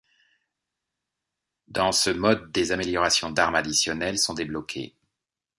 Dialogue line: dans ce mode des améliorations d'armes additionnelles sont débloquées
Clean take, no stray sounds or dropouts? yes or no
yes